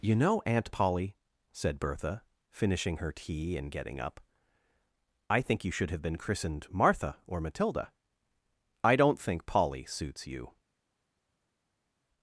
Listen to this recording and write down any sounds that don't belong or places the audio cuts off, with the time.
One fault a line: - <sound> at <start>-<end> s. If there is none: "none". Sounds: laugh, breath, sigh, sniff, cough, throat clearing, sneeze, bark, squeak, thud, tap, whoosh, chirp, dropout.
none